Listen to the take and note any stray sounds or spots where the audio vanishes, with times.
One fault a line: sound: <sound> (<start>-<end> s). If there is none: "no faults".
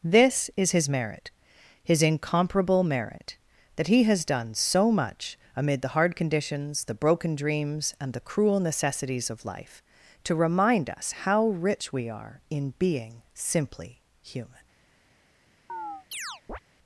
sound: chirp (15.7-16.6 s)